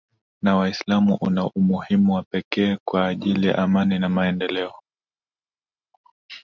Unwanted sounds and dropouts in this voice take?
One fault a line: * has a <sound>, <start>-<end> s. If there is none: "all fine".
all fine